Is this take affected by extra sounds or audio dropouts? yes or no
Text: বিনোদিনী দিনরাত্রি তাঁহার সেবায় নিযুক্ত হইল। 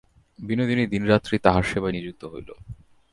no